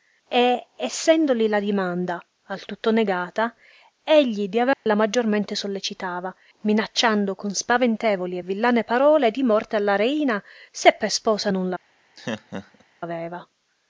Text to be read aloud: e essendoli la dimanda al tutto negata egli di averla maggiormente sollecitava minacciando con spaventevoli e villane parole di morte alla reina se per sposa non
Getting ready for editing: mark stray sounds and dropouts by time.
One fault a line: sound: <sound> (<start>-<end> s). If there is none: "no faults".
sound: dropout (4.7-4.9 s)
sound: laugh (12.2-12.8 s)